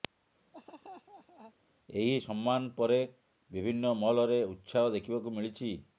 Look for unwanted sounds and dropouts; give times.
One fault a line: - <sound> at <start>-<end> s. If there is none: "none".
- laugh at 0.5-1.5 s